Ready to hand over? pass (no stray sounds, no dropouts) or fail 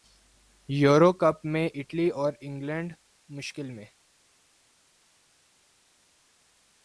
pass